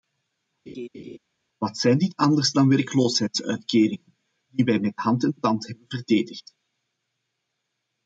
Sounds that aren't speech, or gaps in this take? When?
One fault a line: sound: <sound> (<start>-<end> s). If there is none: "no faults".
sound: laugh (0.7-1.2 s)